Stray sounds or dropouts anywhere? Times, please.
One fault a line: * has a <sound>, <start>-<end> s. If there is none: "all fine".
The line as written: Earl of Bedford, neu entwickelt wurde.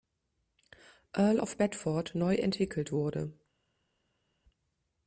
all fine